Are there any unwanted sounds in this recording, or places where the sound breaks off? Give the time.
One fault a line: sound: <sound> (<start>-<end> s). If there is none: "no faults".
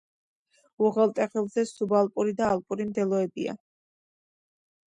no faults